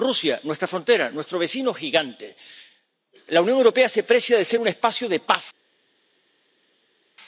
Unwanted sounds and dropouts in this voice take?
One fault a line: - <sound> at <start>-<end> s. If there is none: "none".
none